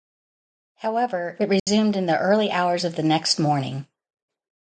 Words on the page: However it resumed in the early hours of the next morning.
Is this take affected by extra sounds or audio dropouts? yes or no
yes